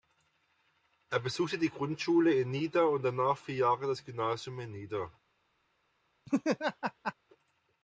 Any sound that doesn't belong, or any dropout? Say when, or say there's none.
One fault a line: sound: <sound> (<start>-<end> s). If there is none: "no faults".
sound: laugh (6.3-7.1 s)